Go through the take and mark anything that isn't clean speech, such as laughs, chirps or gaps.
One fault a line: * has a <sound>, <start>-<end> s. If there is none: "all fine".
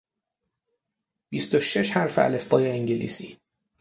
all fine